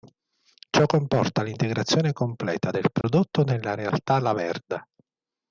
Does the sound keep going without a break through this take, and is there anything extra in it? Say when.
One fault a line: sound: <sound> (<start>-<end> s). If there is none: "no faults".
sound: dropout (3.0-3.0 s)